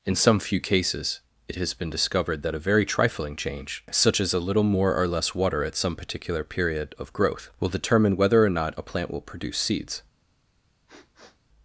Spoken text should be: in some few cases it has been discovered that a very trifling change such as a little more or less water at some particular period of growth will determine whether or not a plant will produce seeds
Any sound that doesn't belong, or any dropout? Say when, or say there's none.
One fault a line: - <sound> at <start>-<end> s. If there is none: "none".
- sniff at 10.9-11.4 s